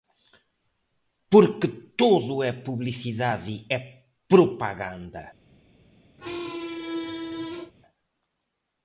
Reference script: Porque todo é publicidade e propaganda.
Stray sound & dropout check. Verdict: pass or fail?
fail